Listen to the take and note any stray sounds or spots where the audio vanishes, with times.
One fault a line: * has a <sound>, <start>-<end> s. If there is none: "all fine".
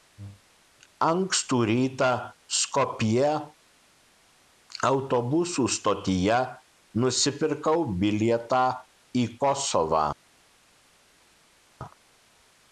all fine